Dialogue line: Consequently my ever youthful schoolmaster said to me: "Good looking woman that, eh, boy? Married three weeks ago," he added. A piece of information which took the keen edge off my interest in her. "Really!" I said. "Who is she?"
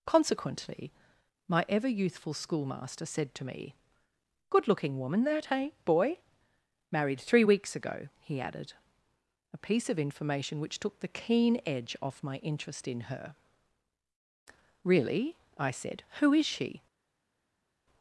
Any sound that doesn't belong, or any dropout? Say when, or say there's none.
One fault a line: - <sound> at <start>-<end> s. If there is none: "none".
none